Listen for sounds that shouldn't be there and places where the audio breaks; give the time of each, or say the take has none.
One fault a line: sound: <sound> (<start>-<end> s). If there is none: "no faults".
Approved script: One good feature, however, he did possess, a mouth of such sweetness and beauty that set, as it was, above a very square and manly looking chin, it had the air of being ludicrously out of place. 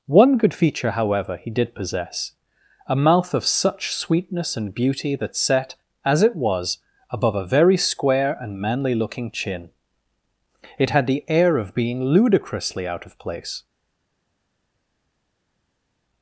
no faults